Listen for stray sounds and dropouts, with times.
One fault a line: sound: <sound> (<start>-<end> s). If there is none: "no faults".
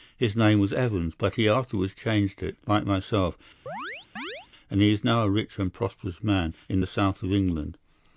sound: chirp (3.7-4.5 s)